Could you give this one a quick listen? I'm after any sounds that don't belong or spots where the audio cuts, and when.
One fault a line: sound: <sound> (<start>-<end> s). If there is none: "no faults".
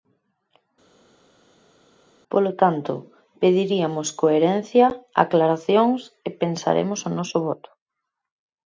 no faults